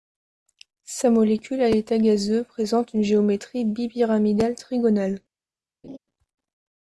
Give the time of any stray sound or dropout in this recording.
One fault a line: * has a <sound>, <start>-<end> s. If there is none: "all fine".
* has a laugh, 5.8-6.0 s